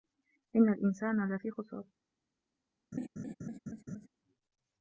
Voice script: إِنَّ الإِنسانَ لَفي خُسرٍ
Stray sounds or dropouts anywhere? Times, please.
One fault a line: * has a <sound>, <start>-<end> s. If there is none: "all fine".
* has a laugh, 2.9-4.1 s